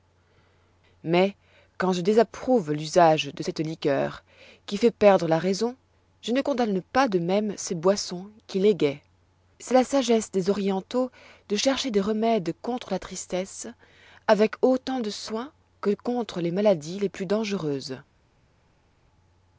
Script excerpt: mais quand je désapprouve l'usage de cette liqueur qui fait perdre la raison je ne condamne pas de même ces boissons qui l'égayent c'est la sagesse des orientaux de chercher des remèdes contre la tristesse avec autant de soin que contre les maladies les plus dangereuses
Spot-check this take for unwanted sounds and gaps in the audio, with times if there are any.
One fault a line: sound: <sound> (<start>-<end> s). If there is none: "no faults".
no faults